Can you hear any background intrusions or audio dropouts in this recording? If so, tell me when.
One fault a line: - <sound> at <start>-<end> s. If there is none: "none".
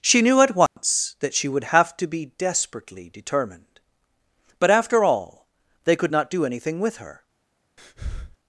- dropout at 0.7-0.8 s
- breath at 7.8-8.4 s